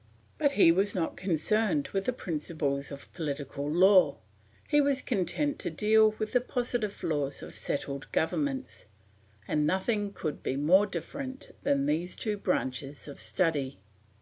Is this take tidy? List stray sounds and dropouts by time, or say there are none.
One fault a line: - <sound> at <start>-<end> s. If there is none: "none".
none